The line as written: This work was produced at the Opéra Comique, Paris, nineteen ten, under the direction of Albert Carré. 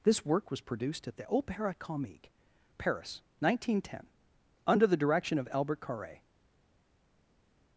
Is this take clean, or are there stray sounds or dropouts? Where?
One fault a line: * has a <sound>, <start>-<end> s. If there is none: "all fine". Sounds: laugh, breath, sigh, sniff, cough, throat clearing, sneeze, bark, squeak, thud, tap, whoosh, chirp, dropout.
all fine